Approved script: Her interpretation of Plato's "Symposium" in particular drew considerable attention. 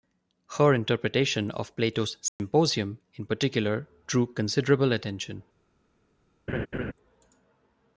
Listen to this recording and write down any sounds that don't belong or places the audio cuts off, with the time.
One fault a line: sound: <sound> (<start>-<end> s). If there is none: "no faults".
sound: dropout (2.3-2.4 s)
sound: laugh (6.5-6.9 s)